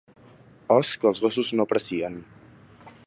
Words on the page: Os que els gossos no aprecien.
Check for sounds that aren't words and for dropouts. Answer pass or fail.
pass